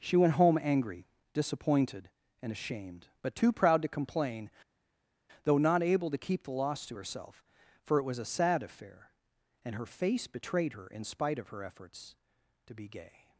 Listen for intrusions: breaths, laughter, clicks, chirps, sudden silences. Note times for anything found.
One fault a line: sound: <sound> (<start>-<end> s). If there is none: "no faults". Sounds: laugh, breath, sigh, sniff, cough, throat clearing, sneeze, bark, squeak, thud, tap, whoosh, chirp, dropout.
no faults